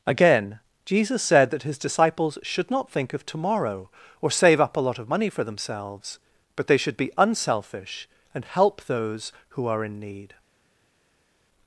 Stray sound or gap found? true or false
false